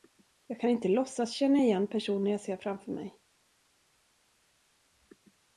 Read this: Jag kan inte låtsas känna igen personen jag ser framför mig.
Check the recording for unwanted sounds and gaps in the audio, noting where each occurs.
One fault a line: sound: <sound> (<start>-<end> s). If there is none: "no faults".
no faults